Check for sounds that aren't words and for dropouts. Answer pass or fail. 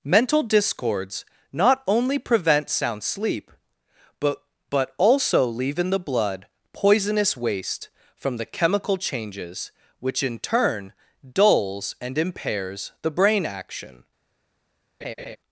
fail